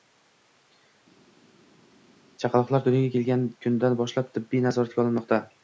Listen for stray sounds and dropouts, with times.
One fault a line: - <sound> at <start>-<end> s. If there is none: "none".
none